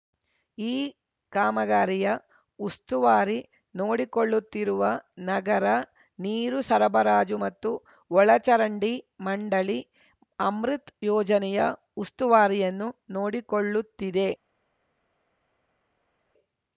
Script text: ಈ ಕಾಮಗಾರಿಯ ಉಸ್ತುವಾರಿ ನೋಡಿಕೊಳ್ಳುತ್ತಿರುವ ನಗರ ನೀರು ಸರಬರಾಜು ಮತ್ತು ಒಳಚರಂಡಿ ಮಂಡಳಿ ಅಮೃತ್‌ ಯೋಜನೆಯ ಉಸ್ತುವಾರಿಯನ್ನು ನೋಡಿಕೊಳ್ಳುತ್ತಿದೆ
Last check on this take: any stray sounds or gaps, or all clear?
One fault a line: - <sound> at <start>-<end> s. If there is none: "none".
none